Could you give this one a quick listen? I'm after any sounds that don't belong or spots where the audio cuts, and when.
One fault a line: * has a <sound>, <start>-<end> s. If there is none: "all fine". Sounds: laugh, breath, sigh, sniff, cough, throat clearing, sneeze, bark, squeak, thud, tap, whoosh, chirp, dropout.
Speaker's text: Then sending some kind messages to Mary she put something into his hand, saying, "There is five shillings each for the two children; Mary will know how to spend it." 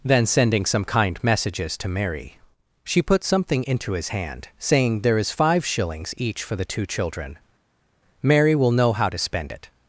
all fine